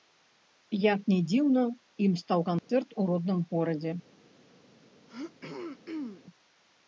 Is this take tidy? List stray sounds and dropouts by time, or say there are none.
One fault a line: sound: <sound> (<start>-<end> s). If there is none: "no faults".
sound: dropout (2.6-2.7 s)
sound: throat clearing (5.1-6.2 s)